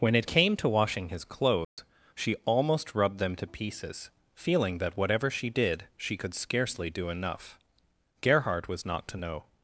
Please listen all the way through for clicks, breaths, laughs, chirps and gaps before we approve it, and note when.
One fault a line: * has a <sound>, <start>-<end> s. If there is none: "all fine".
* has a dropout, 1.6-1.8 s